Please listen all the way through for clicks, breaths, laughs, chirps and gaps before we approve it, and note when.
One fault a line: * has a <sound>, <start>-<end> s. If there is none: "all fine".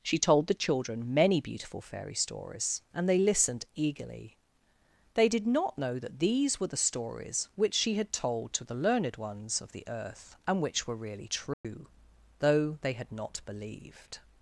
* has a dropout, 11.5-11.6 s